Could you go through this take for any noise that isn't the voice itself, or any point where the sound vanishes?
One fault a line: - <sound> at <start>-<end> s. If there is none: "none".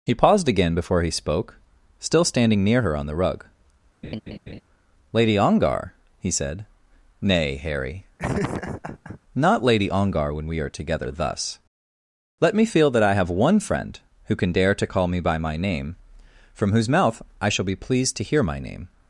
- laugh at 4.0-4.6 s
- laugh at 8.2-9.2 s